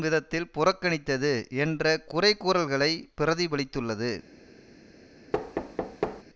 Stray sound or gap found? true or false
true